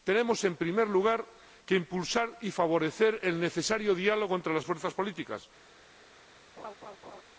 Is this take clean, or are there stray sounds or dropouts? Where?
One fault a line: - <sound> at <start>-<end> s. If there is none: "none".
- laugh at 6.6-7.2 s